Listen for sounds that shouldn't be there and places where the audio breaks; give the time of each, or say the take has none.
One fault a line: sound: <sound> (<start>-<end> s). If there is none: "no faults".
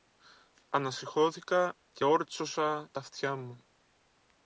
no faults